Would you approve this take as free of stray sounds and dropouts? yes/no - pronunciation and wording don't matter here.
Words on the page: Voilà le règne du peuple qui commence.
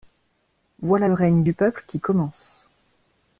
yes